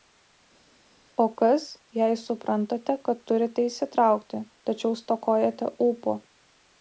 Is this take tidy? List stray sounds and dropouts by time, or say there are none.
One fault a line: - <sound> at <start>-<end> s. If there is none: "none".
none